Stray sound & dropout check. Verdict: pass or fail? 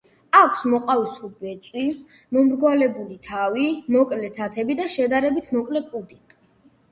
pass